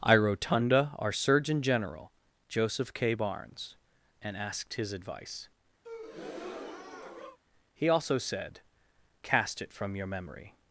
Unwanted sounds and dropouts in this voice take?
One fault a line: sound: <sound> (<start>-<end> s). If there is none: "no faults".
sound: breath (5.8-7.4 s)